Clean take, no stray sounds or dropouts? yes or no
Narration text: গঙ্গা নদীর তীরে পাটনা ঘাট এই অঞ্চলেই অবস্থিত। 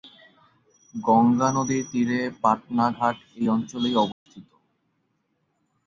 no